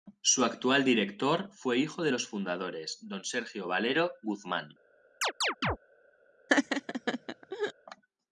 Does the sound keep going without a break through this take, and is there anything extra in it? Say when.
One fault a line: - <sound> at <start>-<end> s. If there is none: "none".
- chirp at 5.2-5.8 s
- laugh at 6.5-7.7 s